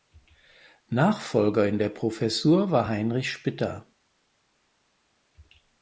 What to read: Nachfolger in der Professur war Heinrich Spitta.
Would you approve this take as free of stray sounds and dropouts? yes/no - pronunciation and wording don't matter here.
yes